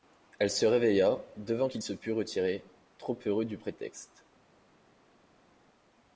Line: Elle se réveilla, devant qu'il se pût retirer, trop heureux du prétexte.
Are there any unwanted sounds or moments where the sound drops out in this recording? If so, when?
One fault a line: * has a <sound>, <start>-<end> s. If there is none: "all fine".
all fine